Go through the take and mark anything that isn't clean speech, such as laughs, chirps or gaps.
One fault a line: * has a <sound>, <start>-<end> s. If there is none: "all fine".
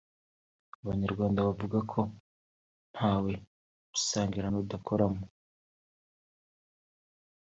all fine